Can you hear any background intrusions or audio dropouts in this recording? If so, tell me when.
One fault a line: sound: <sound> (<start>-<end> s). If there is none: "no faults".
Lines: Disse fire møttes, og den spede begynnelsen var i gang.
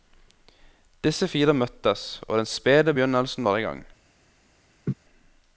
sound: laugh (4.9-4.9 s)